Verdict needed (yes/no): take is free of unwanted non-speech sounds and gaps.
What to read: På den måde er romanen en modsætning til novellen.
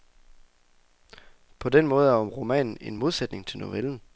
yes